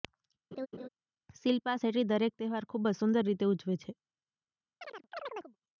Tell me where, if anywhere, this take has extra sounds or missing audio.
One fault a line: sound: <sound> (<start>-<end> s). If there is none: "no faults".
sound: laugh (0.5-0.9 s)
sound: chirp (4.8-5.6 s)